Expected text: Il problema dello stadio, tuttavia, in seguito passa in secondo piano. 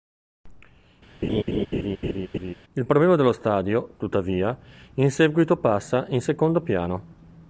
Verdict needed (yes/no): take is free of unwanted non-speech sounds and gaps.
no